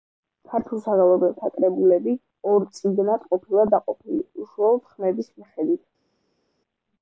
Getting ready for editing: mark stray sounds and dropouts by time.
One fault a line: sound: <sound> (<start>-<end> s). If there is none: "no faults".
no faults